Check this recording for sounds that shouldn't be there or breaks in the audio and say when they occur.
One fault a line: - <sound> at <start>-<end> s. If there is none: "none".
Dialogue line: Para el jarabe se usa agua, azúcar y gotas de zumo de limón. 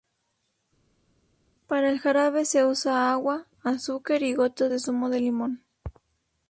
none